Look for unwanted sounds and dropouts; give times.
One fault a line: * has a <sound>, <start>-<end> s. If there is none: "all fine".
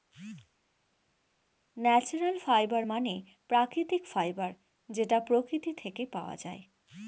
all fine